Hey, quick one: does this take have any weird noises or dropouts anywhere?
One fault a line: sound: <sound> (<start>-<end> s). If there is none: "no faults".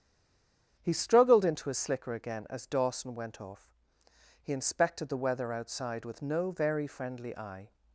no faults